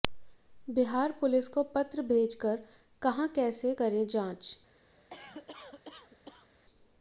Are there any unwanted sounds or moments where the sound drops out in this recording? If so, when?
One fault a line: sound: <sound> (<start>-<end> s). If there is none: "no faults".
sound: cough (5.0-6.5 s)